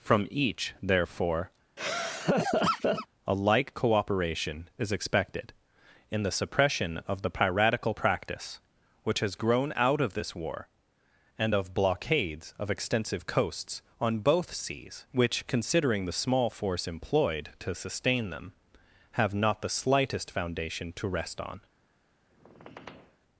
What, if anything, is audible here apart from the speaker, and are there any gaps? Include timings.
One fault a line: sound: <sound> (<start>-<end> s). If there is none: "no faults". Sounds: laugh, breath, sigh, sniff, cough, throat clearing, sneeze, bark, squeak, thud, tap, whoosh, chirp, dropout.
sound: laugh (1.8-3.1 s)
sound: squeak (22.3-23.2 s)